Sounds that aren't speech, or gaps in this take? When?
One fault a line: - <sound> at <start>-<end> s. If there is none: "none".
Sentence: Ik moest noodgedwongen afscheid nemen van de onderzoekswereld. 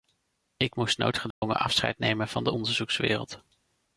- dropout at 1.3-1.4 s